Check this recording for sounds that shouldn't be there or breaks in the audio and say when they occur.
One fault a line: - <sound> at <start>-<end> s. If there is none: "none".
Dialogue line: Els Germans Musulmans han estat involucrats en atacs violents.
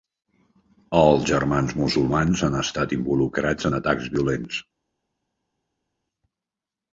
none